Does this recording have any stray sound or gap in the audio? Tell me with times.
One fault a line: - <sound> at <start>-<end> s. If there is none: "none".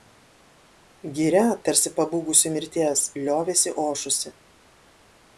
none